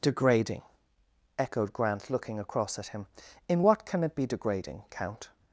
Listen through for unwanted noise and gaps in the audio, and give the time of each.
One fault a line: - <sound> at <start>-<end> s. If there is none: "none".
none